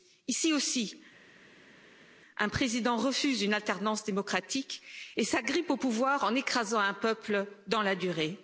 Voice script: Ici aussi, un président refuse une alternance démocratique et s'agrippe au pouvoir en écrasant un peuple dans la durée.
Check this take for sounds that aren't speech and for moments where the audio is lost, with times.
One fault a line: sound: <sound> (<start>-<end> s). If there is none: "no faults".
no faults